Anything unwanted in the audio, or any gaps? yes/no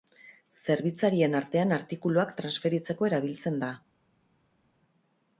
no